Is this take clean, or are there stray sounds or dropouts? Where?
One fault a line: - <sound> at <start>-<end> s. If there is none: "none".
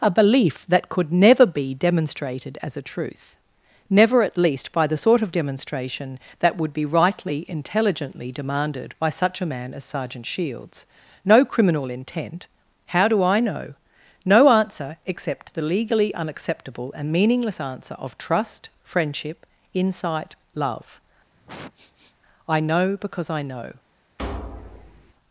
- sniff at 21.3-22.1 s
- thud at 24.2-25.1 s